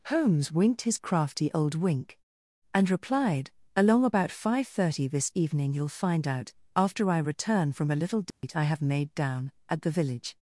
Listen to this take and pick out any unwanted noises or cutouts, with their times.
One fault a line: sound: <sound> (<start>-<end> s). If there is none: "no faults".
sound: dropout (8.3-8.4 s)